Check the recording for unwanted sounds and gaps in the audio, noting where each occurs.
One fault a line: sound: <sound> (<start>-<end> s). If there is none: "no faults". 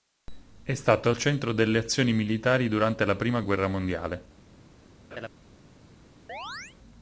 sound: laugh (5.1-5.3 s)
sound: chirp (6.3-6.8 s)